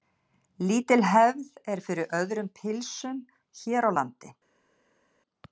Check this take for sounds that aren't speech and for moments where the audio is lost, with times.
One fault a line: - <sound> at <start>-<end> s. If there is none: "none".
none